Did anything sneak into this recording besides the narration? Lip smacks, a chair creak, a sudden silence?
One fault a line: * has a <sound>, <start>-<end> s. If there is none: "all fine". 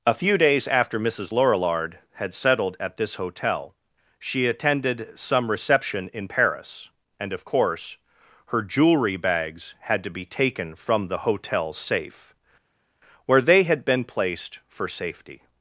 all fine